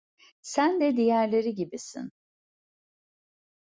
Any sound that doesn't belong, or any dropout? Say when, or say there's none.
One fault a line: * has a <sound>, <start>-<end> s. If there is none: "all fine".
all fine